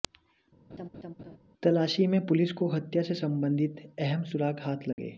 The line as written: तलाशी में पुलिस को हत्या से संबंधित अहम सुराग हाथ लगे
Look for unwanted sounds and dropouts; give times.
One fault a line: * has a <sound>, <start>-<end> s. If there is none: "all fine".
* has a laugh, 0.7-1.4 s
* has a dropout, 4.9-5.0 s